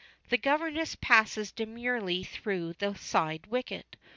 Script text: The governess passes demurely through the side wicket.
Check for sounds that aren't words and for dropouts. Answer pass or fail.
pass